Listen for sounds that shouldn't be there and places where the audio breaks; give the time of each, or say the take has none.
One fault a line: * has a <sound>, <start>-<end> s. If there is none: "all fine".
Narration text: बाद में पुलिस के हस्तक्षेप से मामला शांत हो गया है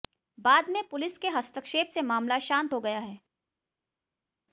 all fine